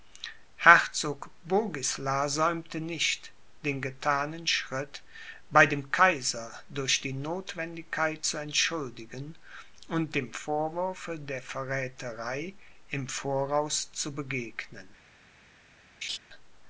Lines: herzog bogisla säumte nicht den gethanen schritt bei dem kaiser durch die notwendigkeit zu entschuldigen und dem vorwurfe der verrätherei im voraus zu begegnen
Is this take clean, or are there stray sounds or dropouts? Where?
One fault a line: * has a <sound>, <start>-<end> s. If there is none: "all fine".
* has a laugh, 16.0-16.2 s